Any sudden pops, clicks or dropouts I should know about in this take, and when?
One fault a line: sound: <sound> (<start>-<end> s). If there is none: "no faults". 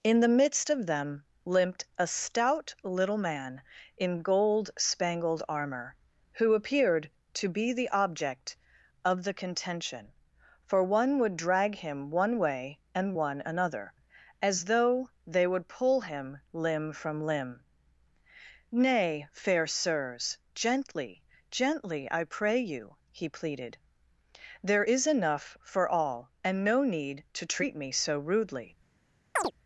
sound: chirp (29.4-29.5 s)